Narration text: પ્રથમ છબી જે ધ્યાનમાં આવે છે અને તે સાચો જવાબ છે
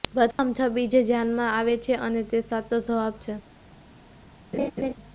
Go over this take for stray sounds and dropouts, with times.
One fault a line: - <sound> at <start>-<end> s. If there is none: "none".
- dropout at 0.3-0.4 s
- laugh at 4.5-4.9 s